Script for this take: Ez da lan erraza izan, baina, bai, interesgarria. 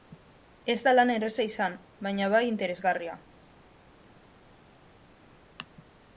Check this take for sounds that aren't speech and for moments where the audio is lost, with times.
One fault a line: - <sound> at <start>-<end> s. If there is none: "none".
none